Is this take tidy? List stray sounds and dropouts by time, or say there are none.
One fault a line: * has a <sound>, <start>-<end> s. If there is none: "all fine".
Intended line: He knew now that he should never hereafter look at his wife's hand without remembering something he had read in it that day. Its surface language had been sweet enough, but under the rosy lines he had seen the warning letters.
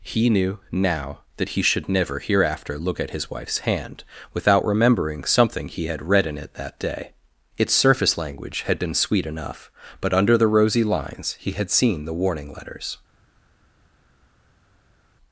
all fine